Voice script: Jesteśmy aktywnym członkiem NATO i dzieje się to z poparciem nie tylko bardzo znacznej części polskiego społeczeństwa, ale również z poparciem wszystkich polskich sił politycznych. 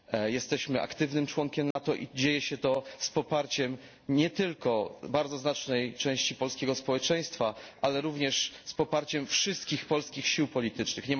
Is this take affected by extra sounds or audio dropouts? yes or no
yes